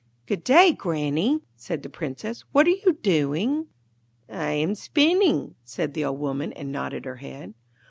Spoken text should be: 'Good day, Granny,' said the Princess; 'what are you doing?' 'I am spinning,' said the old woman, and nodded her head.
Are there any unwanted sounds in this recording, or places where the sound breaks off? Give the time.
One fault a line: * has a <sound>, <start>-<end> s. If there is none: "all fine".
all fine